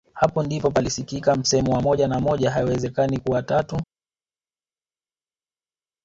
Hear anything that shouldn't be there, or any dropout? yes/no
no